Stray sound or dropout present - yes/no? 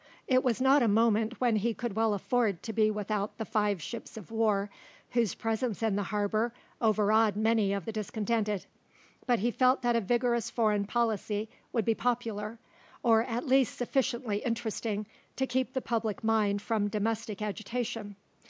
no